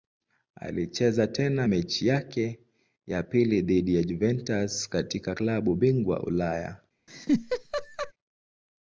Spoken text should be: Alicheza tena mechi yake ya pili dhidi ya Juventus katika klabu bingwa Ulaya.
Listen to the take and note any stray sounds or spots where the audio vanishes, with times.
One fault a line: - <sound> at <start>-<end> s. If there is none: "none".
- laugh at 7.1-8.1 s